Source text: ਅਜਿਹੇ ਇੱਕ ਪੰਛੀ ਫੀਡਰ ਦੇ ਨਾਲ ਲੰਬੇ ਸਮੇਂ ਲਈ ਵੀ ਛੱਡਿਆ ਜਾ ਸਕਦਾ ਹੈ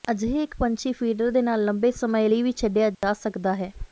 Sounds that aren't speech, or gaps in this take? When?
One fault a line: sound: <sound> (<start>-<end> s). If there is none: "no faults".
sound: dropout (2.9-3.0 s)